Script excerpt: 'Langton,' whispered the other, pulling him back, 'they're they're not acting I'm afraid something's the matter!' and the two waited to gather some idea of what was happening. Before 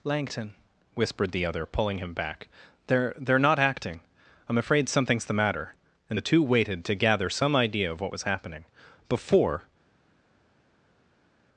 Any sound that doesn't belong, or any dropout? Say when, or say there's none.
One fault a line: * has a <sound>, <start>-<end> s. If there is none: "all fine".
all fine